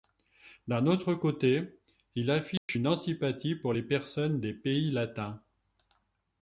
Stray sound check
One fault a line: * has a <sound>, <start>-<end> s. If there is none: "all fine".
* has a dropout, 2.6-2.7 s